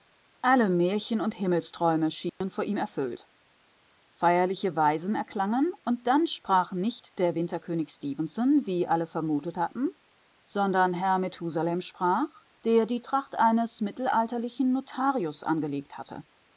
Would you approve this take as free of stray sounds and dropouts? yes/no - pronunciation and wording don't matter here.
no